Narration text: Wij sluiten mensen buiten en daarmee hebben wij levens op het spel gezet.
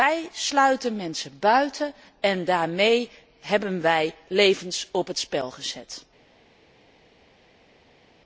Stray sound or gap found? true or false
false